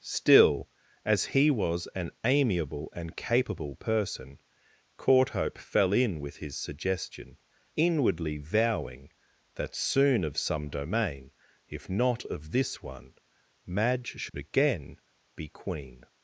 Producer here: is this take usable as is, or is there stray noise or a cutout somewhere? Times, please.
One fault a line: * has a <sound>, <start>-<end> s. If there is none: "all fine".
* has a dropout, 14.3-14.3 s